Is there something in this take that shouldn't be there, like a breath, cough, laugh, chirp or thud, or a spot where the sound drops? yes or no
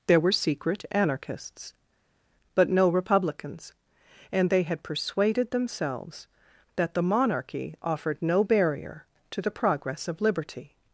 no